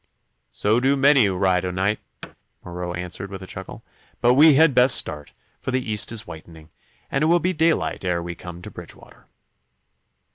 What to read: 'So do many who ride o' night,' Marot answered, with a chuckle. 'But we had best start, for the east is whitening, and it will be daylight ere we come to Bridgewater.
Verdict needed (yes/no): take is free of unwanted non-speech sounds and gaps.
no